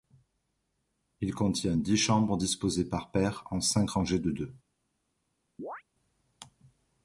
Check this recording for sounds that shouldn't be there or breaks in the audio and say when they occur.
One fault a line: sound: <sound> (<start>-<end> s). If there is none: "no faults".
sound: chirp (5.6-5.8 s)